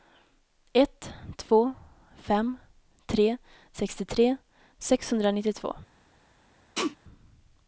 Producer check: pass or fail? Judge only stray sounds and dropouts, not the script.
fail